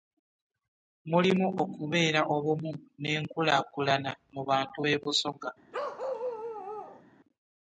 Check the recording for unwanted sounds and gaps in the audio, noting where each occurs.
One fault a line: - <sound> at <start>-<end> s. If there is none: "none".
- bark at 5.7-7.0 s